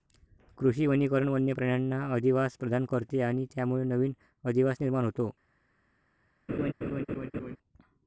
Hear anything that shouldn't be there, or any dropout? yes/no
yes